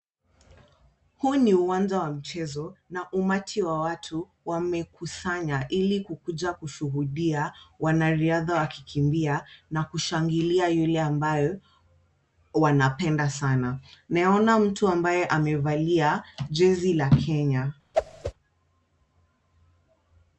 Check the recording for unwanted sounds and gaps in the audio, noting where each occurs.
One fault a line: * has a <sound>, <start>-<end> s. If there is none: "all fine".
* has a whoosh, 17.9-18.3 s